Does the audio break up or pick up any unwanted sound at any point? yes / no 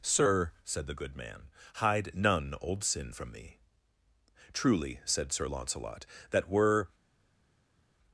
no